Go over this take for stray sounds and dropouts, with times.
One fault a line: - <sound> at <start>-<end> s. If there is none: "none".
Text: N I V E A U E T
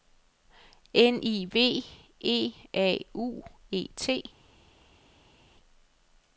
none